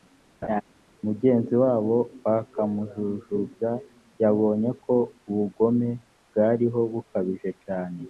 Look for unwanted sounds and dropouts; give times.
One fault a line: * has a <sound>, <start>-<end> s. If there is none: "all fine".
* has a laugh, 0.4-0.6 s